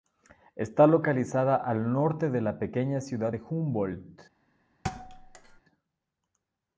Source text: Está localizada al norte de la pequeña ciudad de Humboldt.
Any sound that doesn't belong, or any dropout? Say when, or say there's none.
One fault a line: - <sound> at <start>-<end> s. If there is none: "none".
- thud at 4.8-5.6 s